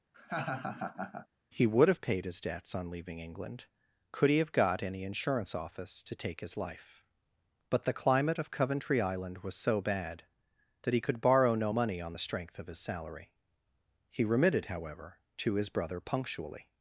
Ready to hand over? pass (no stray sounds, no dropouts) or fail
fail